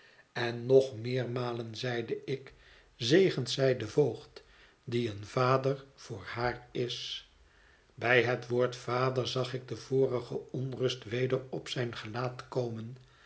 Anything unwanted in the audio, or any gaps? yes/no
no